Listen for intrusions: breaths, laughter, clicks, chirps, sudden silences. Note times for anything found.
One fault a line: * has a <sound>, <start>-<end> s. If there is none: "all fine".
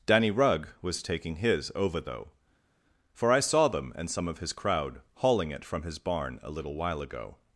all fine